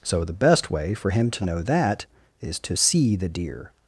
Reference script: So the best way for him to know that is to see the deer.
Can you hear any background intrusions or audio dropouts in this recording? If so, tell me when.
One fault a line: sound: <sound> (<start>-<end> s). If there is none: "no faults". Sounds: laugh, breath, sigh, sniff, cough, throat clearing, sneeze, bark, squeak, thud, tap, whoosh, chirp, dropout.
no faults